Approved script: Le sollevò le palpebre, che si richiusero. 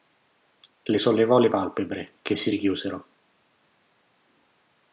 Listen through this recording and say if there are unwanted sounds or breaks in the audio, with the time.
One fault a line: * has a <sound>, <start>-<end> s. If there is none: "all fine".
all fine